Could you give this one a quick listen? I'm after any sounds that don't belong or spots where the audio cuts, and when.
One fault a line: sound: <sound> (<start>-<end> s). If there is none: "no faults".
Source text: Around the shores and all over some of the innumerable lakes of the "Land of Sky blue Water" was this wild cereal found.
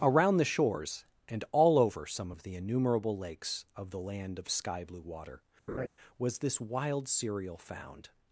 sound: laugh (5.7-5.9 s)